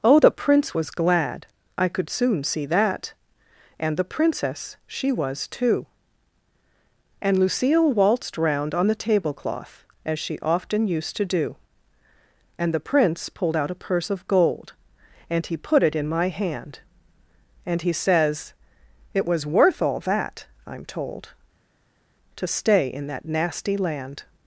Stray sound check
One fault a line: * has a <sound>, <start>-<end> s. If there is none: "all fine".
all fine